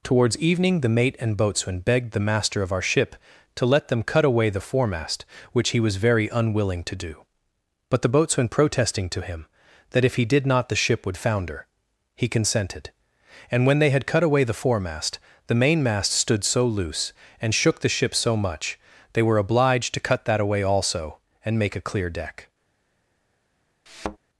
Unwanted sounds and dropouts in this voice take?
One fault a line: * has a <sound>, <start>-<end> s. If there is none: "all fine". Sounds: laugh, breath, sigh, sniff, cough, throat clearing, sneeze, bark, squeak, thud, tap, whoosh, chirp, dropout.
* has a thud, 23.9-24.2 s